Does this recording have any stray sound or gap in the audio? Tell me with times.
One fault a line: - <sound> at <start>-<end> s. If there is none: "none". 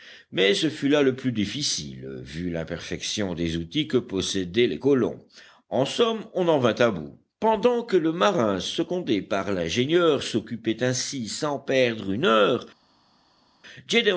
none